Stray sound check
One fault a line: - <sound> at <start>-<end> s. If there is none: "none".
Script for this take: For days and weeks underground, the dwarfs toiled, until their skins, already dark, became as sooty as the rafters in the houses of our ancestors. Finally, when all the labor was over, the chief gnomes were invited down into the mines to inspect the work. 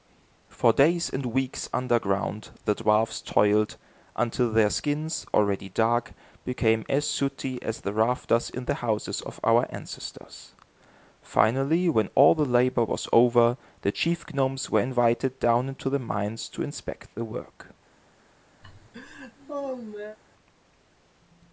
- laugh at 18.6-20.2 s